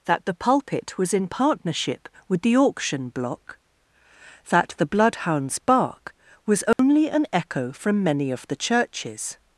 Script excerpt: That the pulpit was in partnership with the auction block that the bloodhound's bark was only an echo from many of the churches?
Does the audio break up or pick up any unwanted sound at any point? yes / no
yes